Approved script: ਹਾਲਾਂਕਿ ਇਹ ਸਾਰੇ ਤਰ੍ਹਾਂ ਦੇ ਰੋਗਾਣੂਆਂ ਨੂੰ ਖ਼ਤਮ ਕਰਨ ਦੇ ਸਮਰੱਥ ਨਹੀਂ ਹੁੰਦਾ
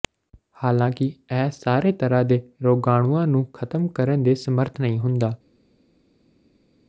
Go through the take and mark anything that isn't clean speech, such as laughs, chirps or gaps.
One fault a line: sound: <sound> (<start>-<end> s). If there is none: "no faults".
no faults